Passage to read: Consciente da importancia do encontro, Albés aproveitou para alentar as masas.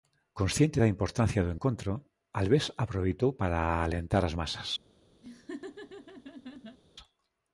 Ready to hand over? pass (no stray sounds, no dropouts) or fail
fail